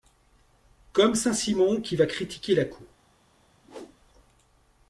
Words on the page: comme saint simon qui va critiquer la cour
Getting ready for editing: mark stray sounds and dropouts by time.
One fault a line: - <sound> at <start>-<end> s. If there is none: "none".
- whoosh at 3.6-4.0 s